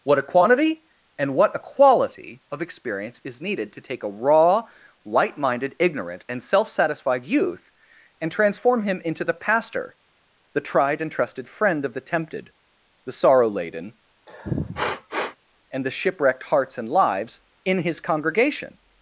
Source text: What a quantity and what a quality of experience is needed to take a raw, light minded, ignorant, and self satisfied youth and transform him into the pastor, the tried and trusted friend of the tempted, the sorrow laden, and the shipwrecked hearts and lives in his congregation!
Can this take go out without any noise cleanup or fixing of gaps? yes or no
no